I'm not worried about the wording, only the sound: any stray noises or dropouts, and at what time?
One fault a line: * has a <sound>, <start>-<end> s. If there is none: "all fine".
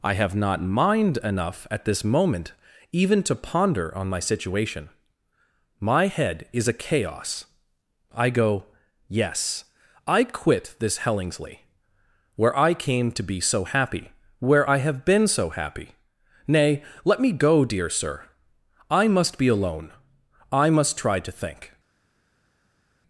all fine